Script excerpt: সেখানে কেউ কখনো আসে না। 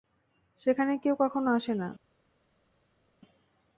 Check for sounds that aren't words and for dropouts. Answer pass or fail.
pass